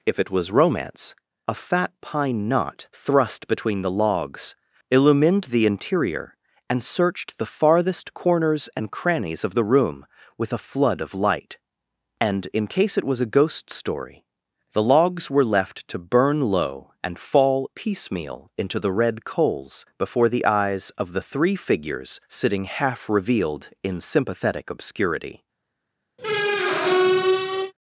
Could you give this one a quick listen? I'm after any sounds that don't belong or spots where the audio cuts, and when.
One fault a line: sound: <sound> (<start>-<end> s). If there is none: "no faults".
sound: squeak (26.2-27.7 s)